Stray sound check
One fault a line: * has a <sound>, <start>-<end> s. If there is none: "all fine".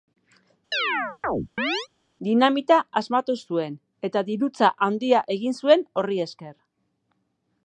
* has a chirp, 0.7-1.9 s